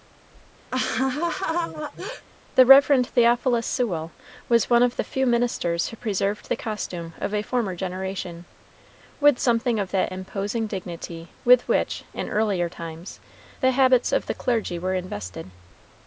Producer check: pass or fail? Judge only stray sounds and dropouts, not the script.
fail